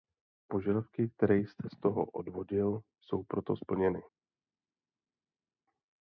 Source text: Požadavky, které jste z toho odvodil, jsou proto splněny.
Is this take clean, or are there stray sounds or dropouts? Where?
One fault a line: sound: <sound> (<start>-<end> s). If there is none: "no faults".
no faults